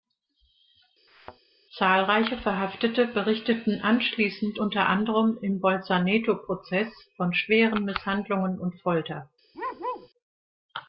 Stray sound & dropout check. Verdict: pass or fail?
fail